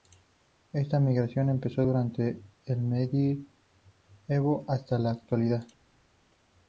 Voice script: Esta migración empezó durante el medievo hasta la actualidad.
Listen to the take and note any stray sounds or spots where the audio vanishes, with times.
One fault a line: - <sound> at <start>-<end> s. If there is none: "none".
none